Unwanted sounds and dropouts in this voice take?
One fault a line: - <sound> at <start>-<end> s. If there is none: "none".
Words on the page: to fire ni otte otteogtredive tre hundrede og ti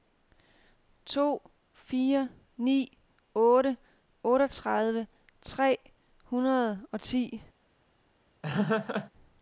- laugh at 8.4-9.1 s